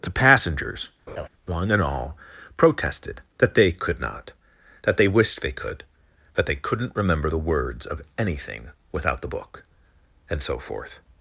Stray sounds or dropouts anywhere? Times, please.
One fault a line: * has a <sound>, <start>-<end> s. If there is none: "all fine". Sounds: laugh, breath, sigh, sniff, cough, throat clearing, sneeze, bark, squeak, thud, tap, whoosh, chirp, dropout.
* has a laugh, 1.1-1.3 s